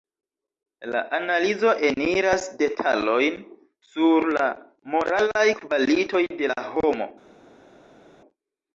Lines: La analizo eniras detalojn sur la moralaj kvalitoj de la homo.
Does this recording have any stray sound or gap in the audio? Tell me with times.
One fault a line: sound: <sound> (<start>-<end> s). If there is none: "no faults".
no faults